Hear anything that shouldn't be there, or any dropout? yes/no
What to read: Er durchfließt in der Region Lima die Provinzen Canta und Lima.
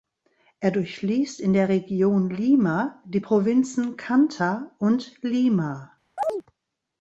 yes